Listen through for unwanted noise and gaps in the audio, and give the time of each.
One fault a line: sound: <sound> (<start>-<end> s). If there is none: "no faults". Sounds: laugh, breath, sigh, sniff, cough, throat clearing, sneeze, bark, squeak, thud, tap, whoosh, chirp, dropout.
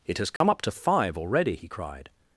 sound: dropout (0.4-0.4 s)